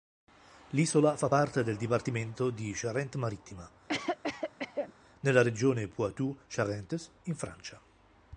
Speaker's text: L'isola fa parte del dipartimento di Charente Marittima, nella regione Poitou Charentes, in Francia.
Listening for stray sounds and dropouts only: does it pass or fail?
fail